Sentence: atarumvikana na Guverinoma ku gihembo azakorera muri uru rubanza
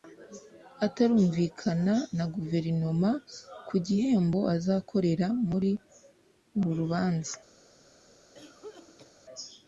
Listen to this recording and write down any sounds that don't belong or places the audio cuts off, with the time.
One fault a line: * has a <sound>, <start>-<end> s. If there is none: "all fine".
* has a cough, 8.3-9.1 s